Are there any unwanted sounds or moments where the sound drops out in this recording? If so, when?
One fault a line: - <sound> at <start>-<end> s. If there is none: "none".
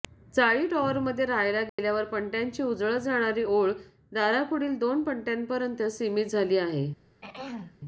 - dropout at 1.7-1.8 s
- throat clearing at 7.2-7.8 s